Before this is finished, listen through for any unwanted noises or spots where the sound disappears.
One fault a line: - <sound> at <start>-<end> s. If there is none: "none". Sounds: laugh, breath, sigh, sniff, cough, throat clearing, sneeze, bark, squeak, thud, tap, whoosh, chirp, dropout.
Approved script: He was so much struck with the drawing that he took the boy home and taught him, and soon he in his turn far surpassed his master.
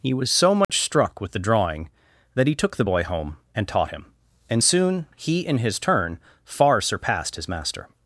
- dropout at 0.6-0.7 s